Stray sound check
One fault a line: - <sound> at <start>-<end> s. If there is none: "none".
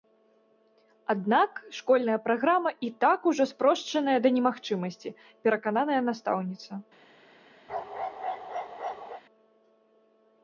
- bark at 7.7-9.2 s